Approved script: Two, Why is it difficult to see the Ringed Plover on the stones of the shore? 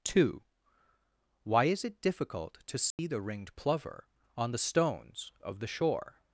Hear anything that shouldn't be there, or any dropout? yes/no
yes